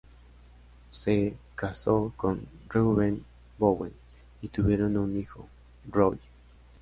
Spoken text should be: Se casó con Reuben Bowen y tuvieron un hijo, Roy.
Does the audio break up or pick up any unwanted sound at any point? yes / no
no